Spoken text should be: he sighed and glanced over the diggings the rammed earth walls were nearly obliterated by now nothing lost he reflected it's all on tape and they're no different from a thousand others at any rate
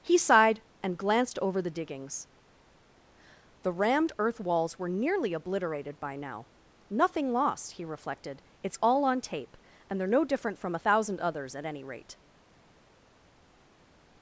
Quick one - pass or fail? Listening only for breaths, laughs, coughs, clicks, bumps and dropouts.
pass